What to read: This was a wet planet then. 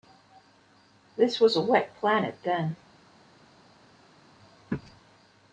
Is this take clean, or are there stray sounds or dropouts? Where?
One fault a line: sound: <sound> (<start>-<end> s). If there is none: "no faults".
no faults